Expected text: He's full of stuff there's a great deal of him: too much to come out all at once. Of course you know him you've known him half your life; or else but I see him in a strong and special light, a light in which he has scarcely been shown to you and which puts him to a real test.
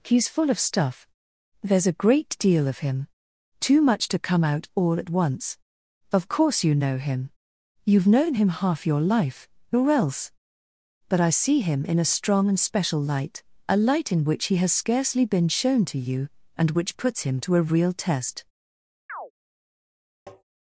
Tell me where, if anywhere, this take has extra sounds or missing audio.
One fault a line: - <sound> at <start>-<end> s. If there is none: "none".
- chirp at 19.1-19.3 s
- tap at 20.3-20.4 s